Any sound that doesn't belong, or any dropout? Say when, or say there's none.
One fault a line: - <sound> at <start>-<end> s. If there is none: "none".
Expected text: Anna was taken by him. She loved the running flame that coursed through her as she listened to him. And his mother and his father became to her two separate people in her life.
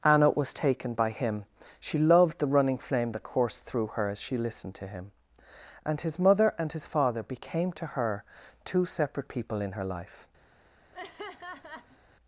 - laugh at 10.9-12.0 s